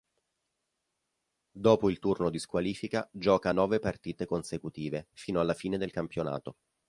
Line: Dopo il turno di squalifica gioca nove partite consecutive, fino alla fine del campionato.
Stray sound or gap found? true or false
false